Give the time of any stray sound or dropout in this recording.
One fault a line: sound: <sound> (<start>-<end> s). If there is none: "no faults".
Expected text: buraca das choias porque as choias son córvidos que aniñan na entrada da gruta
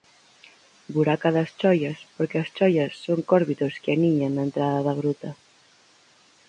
no faults